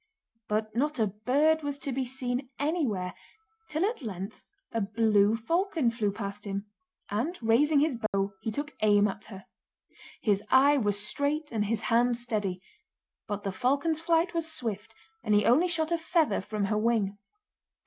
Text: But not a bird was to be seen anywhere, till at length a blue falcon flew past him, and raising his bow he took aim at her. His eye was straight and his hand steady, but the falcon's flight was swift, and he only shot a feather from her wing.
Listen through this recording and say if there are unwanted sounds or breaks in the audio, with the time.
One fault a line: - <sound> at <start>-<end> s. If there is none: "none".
- dropout at 8.1-8.1 s